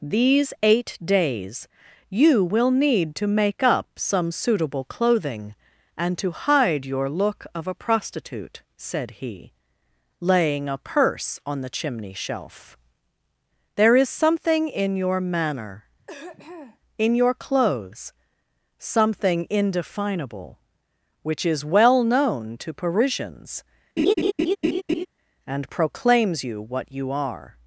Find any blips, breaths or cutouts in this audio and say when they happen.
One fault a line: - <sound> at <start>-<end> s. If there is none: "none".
- throat clearing at 16.0-16.8 s
- laugh at 24.0-25.1 s